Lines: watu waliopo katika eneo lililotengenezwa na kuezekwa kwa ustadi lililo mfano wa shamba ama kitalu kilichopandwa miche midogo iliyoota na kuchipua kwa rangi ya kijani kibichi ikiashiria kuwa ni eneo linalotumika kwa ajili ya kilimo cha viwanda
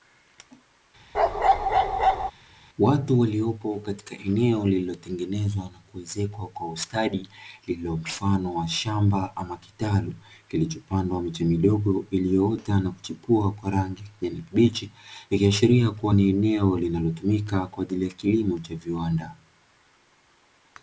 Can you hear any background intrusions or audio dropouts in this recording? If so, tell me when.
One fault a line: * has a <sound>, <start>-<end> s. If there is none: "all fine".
* has a bark, 1.1-2.3 s